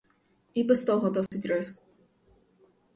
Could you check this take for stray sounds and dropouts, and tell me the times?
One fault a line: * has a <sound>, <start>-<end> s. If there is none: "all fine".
* has a dropout, 1.3-1.3 s